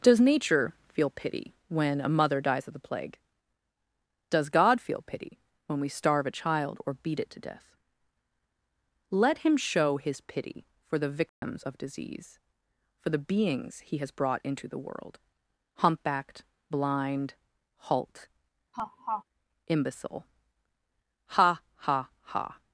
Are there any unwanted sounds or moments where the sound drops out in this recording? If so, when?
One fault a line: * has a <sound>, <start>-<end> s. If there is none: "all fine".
* has a dropout, 11.3-11.4 s
* has a laugh, 18.7-19.2 s